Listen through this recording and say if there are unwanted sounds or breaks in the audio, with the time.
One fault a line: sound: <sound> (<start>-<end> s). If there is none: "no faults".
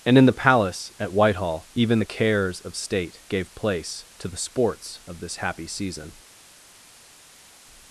no faults